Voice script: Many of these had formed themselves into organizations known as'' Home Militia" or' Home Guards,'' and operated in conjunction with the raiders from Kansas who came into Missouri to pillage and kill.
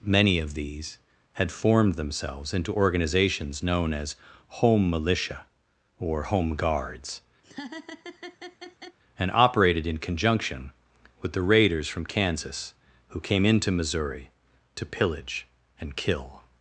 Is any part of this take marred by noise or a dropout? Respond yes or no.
yes